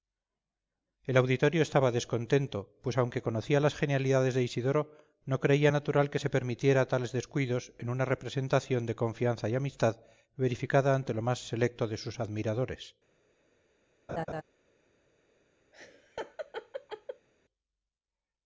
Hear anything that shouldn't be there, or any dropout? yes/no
yes